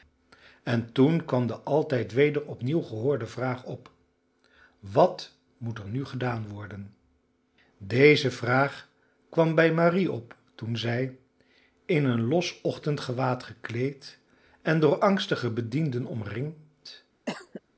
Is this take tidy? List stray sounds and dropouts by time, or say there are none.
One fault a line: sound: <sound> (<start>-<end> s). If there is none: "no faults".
sound: cough (17.3-17.6 s)